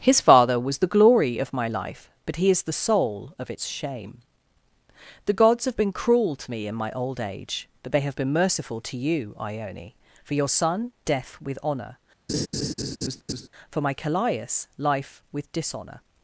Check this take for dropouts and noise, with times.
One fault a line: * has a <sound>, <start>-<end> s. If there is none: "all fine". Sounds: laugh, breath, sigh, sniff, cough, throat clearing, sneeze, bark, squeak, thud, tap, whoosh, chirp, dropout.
* has a laugh, 12.3-13.5 s